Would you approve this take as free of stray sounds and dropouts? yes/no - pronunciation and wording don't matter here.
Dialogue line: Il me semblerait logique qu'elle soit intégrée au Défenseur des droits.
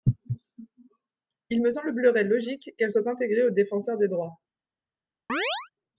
no